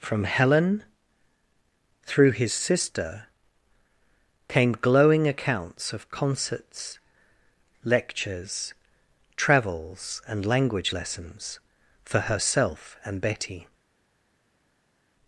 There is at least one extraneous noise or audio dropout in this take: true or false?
false